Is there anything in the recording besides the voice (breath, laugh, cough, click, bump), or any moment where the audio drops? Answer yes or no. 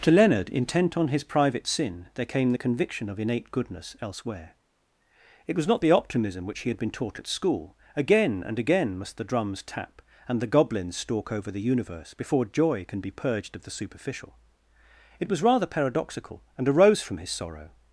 no